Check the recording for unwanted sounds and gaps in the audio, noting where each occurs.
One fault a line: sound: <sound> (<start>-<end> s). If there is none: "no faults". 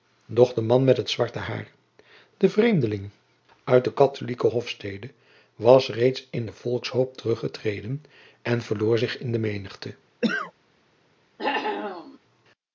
sound: cough (10.2-10.5 s)
sound: cough (11.4-12.2 s)